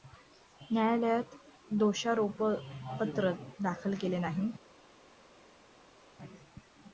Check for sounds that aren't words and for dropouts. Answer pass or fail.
pass